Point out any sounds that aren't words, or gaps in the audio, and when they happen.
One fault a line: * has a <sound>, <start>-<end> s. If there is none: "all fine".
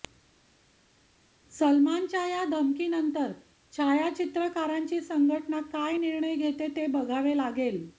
all fine